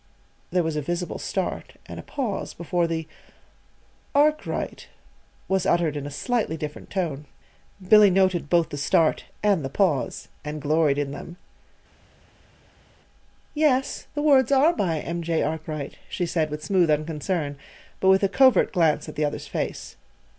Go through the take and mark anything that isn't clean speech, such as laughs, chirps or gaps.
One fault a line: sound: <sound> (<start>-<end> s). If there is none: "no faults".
no faults